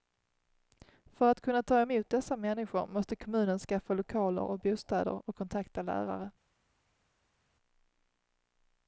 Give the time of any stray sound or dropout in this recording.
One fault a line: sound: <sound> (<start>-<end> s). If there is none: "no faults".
no faults